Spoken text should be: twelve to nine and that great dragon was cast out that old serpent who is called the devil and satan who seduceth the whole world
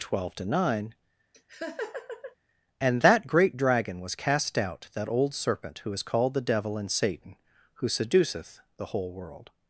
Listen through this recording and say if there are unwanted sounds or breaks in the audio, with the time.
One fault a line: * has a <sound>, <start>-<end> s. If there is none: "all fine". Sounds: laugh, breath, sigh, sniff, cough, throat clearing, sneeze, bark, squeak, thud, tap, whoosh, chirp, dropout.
* has a laugh, 1.3-2.4 s